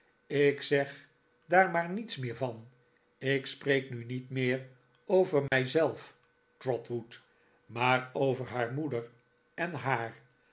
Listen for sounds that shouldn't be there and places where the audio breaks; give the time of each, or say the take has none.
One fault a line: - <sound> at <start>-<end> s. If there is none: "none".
- dropout at 5.5-5.5 s